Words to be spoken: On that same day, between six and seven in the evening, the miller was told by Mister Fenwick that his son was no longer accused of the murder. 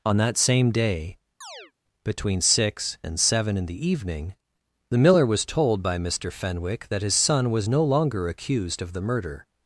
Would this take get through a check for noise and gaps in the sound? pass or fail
fail